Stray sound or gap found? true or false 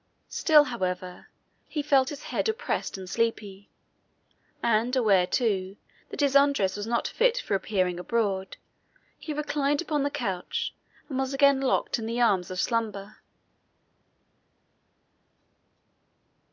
false